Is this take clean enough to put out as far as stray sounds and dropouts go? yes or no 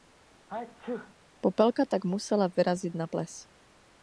no